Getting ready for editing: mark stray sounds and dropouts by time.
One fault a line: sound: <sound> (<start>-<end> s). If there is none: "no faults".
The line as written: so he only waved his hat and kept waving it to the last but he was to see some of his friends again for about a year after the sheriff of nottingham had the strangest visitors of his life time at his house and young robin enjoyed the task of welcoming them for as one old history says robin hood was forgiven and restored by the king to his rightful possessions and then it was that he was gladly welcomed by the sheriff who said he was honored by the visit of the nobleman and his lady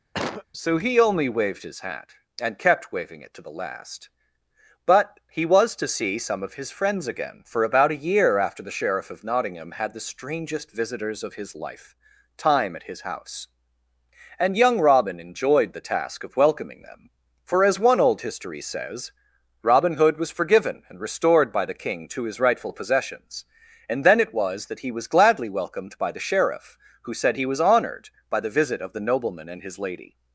sound: cough (0.1-0.4 s)